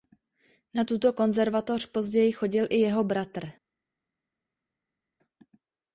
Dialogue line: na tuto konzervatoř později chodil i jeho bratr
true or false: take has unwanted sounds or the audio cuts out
false